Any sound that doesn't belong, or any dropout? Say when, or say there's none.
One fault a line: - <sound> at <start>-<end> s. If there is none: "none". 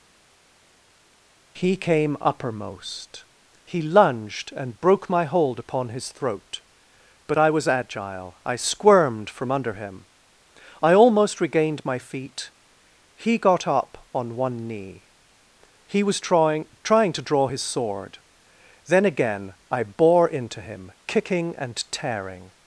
none